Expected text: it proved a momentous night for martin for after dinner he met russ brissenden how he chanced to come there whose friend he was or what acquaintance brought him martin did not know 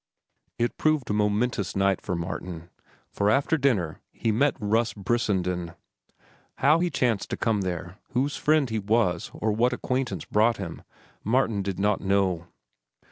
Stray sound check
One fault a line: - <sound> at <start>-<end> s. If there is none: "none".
none